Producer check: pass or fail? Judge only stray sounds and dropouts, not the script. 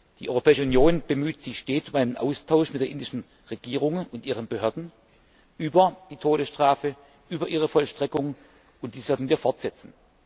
pass